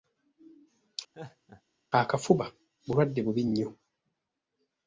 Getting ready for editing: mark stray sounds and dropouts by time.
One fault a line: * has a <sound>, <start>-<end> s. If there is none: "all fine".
* has a laugh, 1.1-1.6 s